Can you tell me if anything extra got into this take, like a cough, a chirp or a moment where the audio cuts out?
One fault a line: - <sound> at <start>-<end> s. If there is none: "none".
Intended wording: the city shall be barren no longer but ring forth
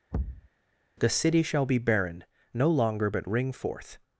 - thud at 0.1-0.5 s